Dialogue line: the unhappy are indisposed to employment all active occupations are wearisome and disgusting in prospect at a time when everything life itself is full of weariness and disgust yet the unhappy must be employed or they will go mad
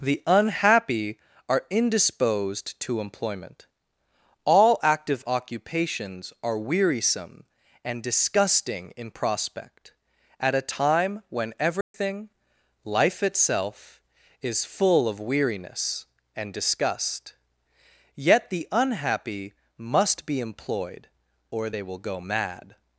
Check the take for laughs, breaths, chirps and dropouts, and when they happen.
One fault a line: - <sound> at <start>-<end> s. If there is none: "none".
- dropout at 11.8-11.9 s